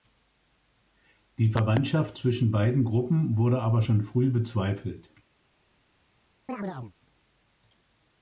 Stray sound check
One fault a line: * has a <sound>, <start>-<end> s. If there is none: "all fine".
* has a chirp, 6.5-6.9 s